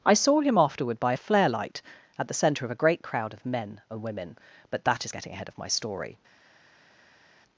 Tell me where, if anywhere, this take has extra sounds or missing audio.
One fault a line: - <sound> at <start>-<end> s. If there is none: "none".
none